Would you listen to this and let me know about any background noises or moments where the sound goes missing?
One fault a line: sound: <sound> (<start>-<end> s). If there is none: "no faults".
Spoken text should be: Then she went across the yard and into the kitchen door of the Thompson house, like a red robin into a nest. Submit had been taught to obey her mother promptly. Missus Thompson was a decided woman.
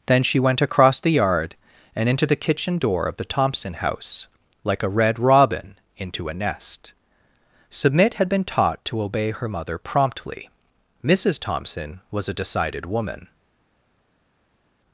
no faults